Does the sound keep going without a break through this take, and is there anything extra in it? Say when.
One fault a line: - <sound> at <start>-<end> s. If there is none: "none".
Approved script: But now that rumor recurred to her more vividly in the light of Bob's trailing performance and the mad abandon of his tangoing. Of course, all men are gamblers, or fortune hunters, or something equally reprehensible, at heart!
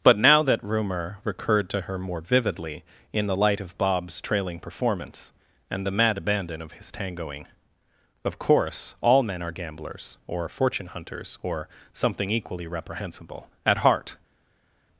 none